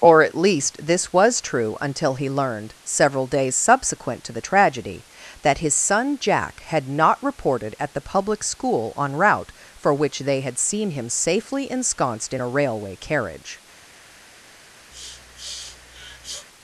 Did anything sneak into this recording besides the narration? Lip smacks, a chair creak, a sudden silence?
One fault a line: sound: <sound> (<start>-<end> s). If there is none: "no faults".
sound: sniff (14.9-16.5 s)